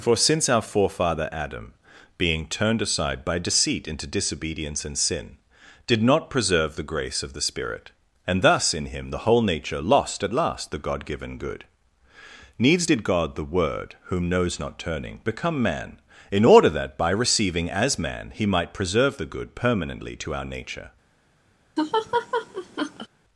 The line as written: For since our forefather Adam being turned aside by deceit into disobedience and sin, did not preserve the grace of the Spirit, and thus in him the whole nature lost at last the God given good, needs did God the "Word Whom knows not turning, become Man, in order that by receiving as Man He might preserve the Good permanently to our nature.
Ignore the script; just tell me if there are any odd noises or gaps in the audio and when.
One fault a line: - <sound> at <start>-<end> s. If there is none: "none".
- laugh at 21.8-23.1 s